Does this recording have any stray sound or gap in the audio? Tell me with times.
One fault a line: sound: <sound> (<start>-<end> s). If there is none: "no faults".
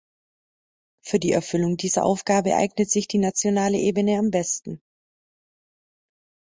no faults